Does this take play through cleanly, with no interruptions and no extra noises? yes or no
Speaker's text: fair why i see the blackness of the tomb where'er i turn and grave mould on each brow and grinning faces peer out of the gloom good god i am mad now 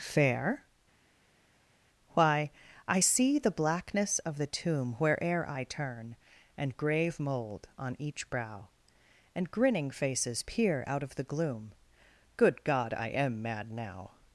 yes